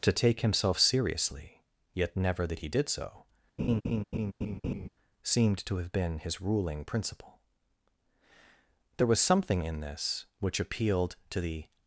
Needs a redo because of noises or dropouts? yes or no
yes